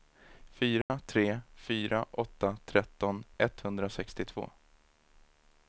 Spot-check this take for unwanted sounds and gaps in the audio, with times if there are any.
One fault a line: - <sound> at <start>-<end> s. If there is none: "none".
- dropout at 0.8-0.9 s